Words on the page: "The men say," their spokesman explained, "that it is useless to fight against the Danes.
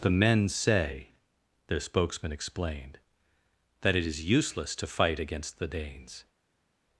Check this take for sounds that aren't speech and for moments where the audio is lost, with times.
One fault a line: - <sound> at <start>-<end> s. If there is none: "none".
none